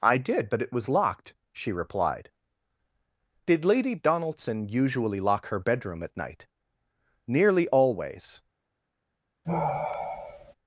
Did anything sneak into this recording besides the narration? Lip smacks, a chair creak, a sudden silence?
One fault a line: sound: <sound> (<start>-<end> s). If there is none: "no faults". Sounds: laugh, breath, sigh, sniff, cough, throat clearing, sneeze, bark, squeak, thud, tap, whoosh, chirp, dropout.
sound: sigh (9.4-10.5 s)